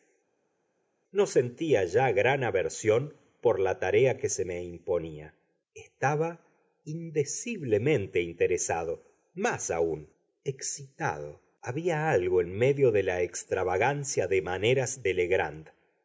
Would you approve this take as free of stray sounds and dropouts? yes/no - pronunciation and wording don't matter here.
yes